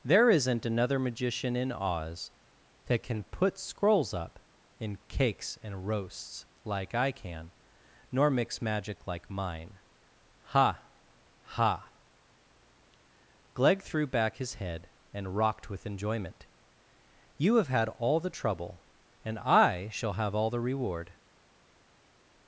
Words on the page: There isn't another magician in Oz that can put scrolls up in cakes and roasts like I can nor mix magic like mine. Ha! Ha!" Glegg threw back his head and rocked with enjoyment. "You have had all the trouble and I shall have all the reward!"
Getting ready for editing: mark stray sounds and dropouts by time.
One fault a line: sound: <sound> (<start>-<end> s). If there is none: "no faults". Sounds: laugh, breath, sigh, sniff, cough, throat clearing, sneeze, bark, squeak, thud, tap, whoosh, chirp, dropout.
no faults